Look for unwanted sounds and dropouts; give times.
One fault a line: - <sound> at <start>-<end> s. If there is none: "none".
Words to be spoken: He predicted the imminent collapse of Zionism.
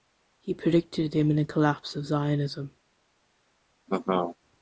- laugh at 3.9-4.4 s